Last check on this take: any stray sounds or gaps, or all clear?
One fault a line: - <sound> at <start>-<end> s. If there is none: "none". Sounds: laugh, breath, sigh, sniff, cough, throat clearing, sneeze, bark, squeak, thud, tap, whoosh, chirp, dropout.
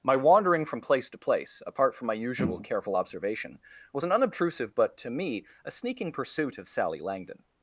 none